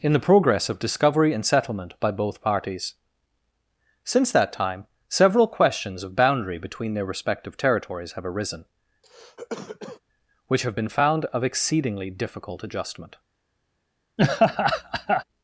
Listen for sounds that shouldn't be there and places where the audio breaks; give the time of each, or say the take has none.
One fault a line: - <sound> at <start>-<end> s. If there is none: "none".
- cough at 9.0-10.0 s
- laugh at 14.2-15.2 s